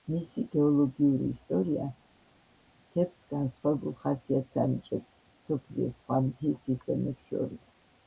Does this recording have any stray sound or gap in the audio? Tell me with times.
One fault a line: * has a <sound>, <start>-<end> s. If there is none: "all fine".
all fine